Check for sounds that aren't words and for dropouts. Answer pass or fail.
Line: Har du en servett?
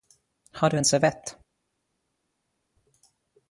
pass